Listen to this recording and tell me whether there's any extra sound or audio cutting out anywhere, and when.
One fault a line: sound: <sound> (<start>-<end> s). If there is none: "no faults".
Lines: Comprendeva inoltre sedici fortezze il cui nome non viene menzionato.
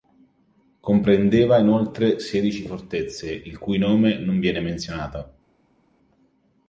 no faults